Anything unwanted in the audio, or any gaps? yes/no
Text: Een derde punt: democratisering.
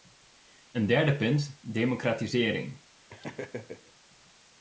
yes